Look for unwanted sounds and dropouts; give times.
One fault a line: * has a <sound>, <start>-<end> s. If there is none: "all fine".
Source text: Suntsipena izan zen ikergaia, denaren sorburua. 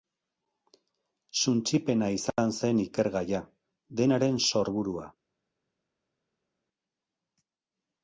all fine